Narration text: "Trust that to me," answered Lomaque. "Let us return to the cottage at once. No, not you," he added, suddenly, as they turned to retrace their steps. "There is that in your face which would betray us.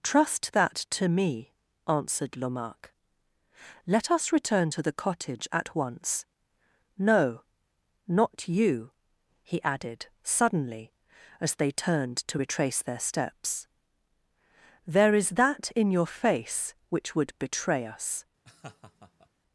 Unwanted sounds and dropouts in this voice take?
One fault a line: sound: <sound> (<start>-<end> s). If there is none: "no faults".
sound: laugh (18.4-19.3 s)